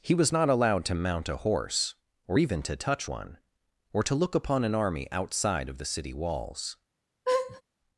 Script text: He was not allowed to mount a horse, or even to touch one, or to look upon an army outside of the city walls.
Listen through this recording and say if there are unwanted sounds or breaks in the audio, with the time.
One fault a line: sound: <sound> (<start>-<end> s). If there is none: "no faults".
sound: laugh (7.3-7.6 s)